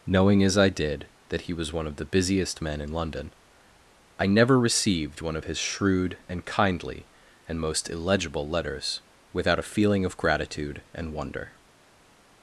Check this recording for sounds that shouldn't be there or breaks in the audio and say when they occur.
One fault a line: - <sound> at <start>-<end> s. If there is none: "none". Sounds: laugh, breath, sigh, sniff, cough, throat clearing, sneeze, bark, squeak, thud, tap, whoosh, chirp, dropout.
none